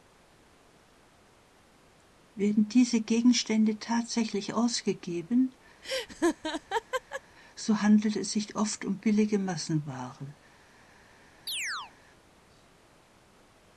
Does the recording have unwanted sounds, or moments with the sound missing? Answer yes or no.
yes